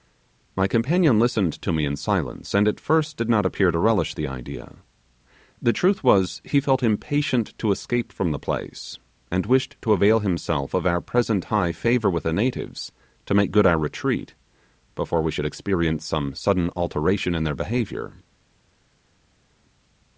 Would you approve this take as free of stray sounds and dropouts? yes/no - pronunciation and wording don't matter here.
yes